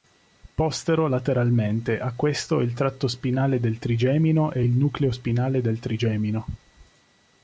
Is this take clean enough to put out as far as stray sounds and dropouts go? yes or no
yes